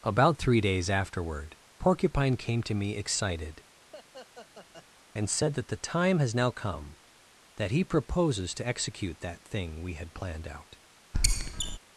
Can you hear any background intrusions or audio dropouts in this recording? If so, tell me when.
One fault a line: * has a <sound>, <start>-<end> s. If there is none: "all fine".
* has a laugh, 3.9-4.9 s
* has a squeak, 11.1-11.8 s